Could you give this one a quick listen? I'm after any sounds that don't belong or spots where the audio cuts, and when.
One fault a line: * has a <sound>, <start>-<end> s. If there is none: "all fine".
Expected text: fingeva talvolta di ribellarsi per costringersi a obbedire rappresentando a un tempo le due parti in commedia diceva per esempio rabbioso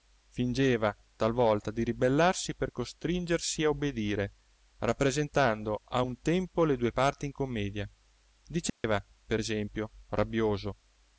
* has a dropout, 8.7-8.8 s